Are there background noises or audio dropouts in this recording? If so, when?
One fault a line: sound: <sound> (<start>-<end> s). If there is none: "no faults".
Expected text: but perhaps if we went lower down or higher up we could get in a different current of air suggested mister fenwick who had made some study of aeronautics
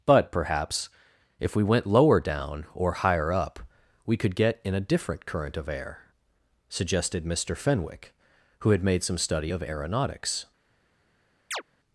sound: chirp (11.5-11.6 s)